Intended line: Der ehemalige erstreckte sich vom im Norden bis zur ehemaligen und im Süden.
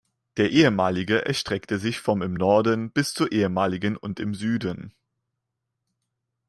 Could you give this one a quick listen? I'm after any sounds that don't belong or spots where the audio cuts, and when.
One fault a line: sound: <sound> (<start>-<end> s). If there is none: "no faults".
no faults